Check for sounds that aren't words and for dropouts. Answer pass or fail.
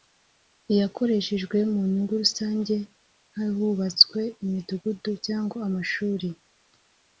pass